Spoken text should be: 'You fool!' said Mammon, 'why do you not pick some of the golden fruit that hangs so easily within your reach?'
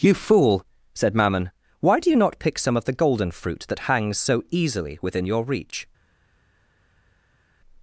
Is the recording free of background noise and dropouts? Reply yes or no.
yes